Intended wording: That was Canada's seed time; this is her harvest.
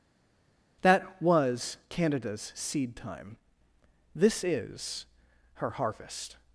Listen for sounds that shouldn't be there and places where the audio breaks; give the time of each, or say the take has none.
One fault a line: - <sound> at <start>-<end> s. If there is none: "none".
none